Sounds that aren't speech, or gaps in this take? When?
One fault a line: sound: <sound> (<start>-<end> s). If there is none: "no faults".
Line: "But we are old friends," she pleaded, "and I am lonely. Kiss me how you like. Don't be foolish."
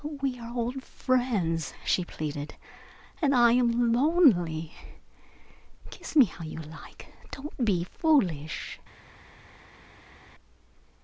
no faults